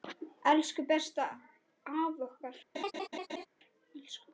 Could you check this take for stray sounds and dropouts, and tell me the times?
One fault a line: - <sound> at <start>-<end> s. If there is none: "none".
- laugh at 2.7-3.5 s